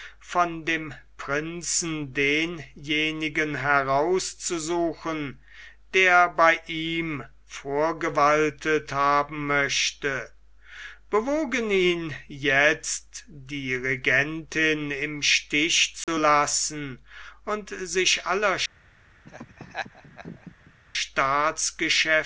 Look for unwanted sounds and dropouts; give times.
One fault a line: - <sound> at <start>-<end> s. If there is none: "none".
- dropout at 16.0-16.1 s
- laugh at 19.2-20.7 s